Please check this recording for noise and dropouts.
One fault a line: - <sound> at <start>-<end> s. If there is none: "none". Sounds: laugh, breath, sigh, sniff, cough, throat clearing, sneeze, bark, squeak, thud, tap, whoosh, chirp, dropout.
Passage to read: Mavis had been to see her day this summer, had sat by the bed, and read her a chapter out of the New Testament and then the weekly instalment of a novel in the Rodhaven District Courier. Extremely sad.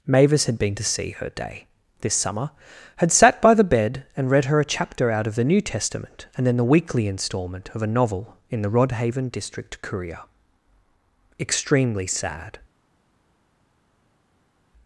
none